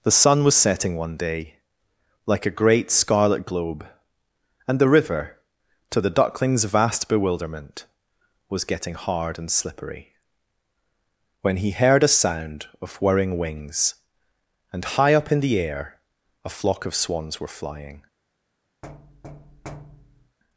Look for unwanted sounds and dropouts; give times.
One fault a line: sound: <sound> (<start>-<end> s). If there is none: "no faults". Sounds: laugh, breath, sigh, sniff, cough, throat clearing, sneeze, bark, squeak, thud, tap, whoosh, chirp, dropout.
sound: thud (18.8-20.4 s)